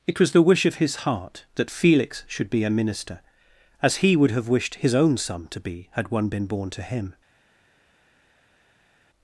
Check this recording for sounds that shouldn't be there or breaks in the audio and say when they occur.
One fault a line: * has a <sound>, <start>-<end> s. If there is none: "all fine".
all fine